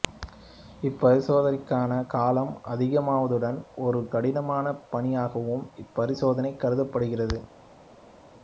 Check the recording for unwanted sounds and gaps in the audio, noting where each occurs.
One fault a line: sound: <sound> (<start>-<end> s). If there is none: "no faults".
no faults